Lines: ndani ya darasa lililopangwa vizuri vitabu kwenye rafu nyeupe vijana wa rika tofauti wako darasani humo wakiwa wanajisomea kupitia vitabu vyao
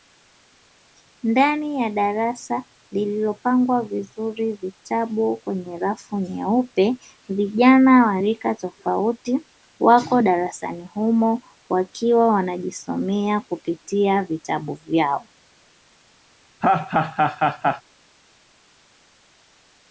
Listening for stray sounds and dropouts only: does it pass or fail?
fail